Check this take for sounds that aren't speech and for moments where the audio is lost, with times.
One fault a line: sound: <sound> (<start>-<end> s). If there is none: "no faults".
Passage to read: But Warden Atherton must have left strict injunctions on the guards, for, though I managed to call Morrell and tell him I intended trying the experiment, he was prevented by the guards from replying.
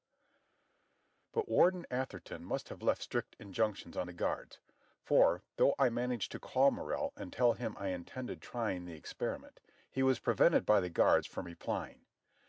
no faults